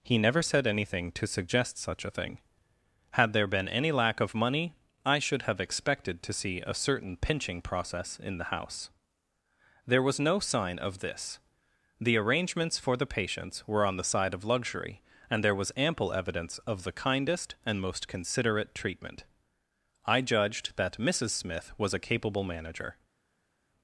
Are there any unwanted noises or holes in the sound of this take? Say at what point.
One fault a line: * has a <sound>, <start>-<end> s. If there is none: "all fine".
all fine